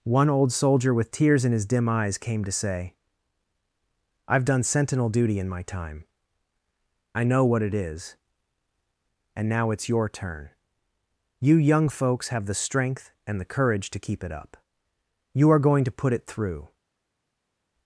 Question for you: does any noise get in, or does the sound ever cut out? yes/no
no